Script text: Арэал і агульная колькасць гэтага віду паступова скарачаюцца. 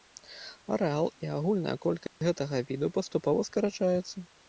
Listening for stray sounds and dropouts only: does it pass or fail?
fail